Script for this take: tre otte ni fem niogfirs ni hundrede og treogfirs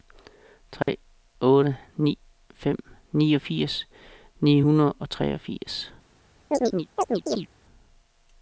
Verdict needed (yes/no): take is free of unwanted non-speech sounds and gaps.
no